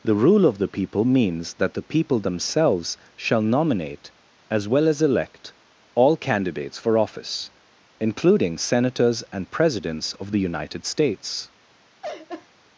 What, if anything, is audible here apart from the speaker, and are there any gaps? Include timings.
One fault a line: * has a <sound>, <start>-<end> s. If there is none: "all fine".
* has a laugh, 12.0-12.5 s